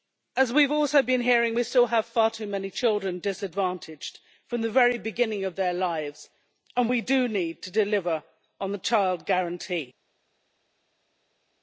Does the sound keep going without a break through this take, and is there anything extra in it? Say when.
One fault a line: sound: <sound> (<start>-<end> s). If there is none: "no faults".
no faults